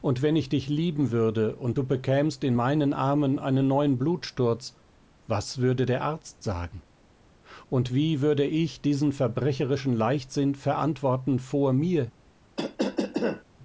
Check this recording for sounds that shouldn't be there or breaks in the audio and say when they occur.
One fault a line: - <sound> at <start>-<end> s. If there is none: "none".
- cough at 12.6-13.4 s